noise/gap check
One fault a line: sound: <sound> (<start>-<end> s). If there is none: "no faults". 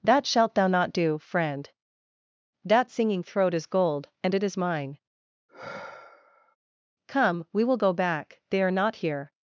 sound: sigh (5.5-6.6 s)